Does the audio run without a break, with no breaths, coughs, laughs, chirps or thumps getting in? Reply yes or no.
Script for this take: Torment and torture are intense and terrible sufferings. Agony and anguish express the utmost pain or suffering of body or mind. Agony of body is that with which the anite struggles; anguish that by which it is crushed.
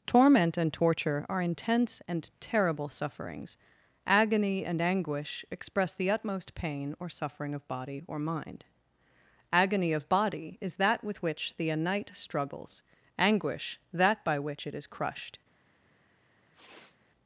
no